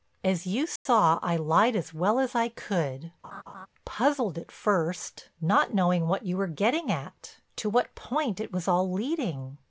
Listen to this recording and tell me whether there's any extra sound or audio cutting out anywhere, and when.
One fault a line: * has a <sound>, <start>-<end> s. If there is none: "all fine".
* has a dropout, 0.8-0.9 s
* has a laugh, 3.2-3.7 s